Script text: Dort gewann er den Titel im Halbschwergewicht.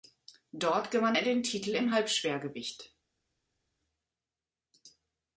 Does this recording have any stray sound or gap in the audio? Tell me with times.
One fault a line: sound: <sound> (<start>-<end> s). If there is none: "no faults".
no faults